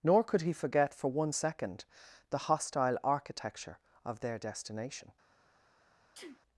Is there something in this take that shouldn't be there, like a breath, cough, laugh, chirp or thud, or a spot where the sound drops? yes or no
yes